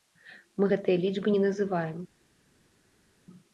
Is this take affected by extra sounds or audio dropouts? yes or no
no